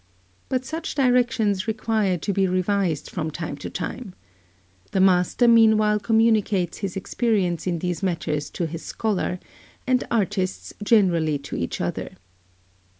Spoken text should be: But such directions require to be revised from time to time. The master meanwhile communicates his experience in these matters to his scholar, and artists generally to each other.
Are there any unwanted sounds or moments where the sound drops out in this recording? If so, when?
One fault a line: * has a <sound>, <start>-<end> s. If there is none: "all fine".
all fine